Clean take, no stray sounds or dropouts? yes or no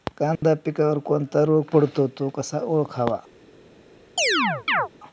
no